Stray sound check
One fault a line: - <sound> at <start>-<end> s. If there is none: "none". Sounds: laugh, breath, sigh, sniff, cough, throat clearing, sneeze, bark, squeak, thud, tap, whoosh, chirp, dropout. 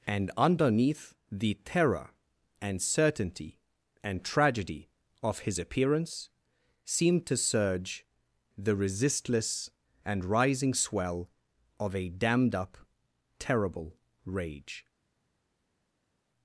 none